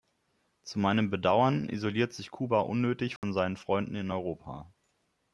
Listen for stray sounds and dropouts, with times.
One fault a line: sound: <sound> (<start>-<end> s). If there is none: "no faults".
sound: dropout (3.2-3.2 s)